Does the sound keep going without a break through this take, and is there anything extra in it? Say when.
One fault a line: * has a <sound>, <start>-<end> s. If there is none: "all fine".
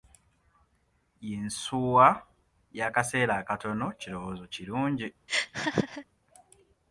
* has a laugh, 5.3-6.0 s